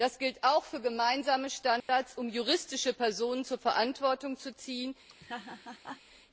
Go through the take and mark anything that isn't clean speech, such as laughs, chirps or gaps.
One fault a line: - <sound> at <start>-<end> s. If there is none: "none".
- dropout at 1.8-1.9 s
- laugh at 5.1-6.0 s